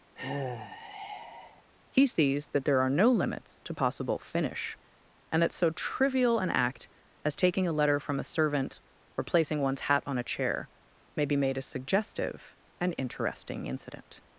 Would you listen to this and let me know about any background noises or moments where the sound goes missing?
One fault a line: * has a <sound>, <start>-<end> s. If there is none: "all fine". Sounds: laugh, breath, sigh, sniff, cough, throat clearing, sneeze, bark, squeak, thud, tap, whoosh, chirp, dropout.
* has a sigh, 0.2-1.6 s